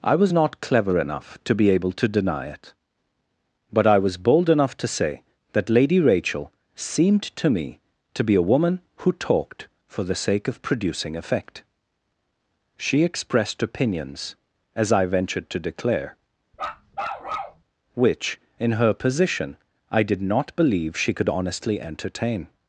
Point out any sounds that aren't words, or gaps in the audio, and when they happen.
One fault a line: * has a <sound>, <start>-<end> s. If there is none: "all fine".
* has a bark, 16.5-17.6 s